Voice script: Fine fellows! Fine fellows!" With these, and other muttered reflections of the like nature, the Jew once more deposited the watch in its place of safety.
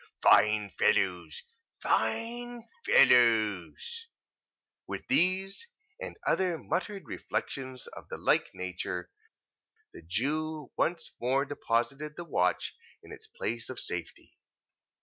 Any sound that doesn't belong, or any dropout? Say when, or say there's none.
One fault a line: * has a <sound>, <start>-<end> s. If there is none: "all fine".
all fine